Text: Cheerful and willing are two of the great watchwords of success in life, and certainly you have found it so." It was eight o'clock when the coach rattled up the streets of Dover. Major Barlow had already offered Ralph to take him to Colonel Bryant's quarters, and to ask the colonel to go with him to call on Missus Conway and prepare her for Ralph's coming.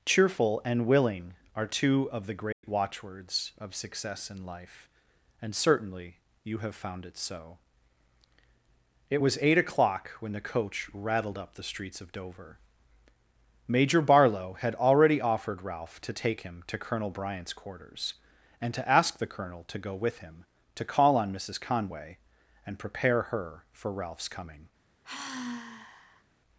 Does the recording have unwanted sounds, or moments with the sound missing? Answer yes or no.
yes